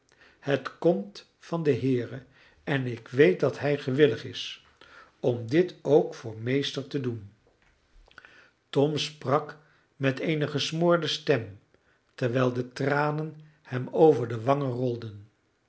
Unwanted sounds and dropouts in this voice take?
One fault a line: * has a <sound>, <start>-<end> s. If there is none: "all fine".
all fine